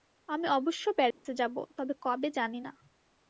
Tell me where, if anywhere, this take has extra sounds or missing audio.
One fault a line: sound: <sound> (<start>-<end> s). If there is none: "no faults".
sound: dropout (1.1-1.3 s)